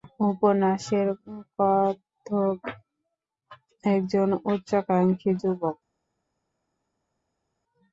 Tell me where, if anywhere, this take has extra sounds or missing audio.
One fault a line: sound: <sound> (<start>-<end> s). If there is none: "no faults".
no faults